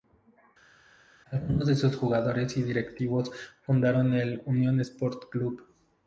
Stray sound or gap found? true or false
false